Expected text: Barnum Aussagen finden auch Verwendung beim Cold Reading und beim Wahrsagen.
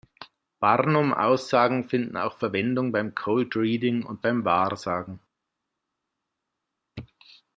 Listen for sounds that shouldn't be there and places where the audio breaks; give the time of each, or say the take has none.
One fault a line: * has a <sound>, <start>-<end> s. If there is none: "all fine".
all fine